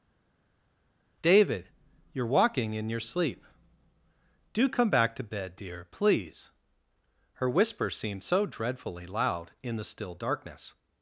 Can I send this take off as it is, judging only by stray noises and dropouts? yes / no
yes